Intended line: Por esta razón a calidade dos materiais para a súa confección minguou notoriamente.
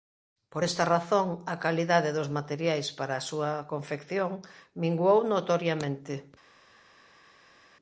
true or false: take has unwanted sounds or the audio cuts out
false